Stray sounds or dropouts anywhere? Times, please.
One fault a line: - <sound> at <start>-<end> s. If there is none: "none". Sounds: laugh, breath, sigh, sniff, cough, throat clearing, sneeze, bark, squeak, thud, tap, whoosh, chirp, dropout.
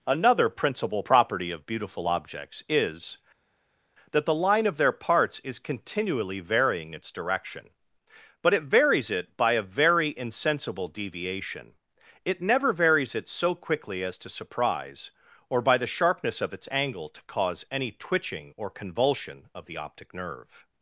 none